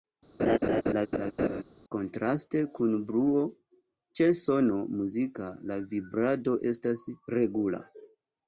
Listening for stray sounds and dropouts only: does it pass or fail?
fail